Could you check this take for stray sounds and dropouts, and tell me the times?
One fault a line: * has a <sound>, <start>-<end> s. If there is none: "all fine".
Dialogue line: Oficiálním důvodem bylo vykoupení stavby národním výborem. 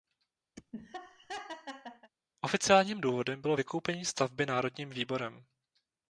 * has a laugh, 0.6-2.1 s